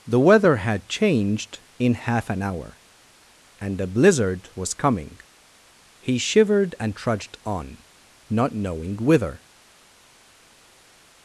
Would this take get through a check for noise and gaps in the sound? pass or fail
pass